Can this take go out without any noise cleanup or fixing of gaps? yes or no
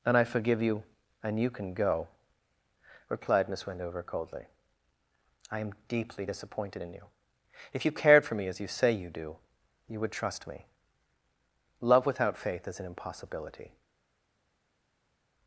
yes